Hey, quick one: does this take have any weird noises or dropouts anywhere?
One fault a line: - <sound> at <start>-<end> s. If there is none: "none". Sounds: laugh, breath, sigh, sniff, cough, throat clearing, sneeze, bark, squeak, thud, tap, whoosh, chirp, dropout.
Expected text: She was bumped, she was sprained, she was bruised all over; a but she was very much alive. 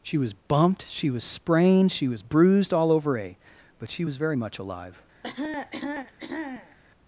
- cough at 5.2-6.8 s